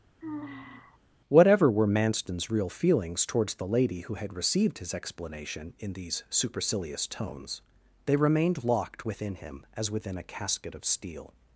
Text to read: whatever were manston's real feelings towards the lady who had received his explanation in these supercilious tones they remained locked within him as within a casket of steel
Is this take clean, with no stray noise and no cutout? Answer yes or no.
no